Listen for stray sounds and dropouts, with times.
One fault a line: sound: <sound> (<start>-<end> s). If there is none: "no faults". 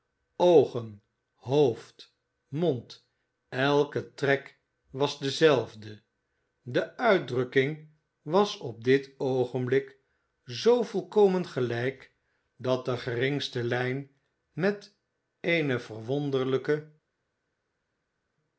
no faults